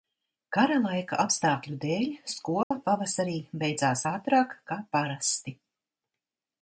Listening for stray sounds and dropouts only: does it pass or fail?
fail